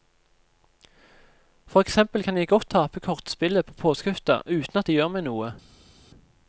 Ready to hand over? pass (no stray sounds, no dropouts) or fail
pass